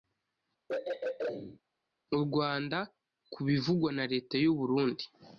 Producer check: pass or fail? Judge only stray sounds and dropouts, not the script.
fail